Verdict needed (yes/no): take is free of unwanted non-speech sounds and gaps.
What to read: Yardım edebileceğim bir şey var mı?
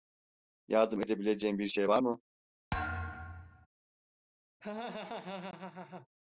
no